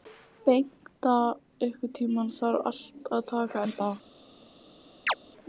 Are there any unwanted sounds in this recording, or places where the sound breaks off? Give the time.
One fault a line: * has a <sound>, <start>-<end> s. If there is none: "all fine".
* has a chirp, 5.1-5.1 s